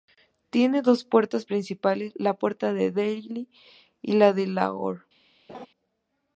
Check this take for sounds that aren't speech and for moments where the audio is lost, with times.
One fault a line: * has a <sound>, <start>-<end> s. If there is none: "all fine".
* has a laugh, 5.5-5.7 s